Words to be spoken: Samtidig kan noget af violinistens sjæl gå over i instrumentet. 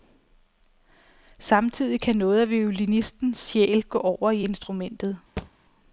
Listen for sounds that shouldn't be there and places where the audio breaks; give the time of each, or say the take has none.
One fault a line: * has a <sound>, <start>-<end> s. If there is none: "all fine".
* has a thud, 5.4-5.5 s